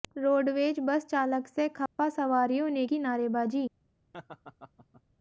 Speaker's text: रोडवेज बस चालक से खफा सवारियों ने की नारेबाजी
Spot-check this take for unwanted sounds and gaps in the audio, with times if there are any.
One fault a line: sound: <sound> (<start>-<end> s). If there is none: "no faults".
sound: dropout (1.9-2.0 s)
sound: laugh (4.1-5.0 s)